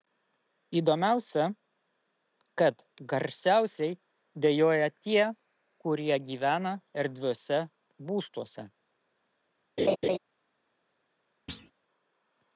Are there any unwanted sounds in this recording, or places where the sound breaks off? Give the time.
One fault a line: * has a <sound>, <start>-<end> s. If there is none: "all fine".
* has a laugh, 9.8-10.2 s
* has a thud, 11.5-11.7 s